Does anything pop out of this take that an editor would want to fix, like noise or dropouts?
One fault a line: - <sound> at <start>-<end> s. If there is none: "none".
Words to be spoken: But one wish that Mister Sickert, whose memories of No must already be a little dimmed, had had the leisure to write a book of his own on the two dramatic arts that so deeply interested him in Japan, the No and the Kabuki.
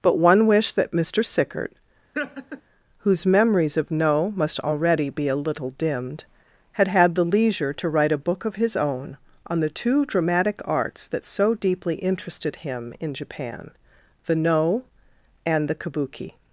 - laugh at 2.1-2.6 s